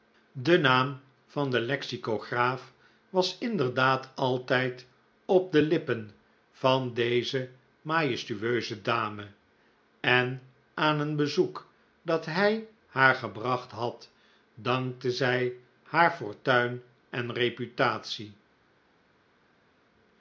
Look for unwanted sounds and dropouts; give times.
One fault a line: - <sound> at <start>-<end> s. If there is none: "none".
none